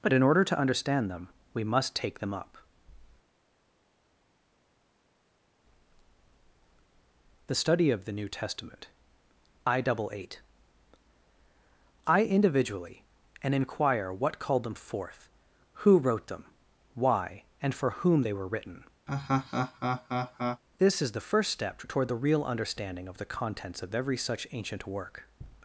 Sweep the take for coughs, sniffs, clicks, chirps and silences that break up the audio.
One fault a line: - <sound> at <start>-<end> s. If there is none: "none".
- laugh at 19.1-20.6 s